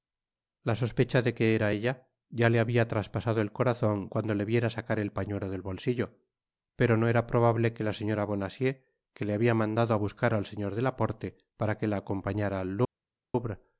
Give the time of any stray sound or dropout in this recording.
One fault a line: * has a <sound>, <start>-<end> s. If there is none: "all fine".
all fine